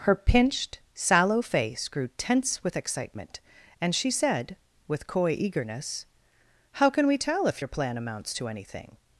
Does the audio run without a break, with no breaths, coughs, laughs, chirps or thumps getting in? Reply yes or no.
yes